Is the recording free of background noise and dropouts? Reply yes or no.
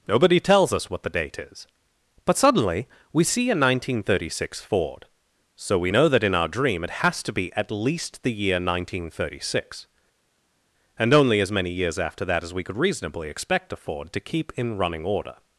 yes